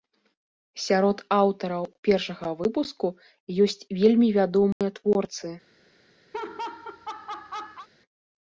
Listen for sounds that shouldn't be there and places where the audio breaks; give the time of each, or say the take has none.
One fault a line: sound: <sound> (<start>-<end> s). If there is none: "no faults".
sound: dropout (4.7-4.8 s)
sound: laugh (6.3-7.9 s)